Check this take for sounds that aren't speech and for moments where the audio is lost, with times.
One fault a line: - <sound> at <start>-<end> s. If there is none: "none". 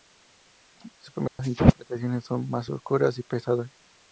- dropout at 1.3-1.4 s